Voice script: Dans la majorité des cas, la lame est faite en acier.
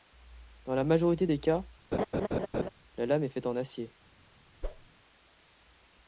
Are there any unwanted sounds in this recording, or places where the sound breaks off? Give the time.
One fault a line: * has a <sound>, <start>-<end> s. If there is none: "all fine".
* has a laugh, 1.9-2.7 s
* has a whoosh, 4.6-4.9 s